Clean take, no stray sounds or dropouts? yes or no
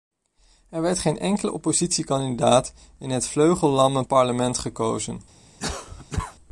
no